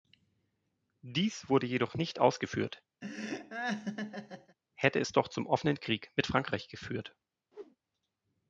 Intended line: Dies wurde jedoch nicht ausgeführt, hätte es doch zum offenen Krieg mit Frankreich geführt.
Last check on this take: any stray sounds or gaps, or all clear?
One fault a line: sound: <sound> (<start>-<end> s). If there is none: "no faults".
sound: laugh (3.0-4.6 s)
sound: whoosh (7.5-7.8 s)